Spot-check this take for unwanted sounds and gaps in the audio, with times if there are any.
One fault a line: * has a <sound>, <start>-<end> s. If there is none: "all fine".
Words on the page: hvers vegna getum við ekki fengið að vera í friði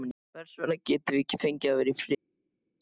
all fine